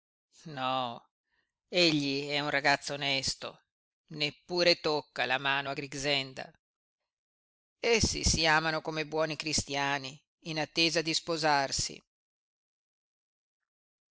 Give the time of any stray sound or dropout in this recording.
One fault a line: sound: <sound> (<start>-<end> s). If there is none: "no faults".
no faults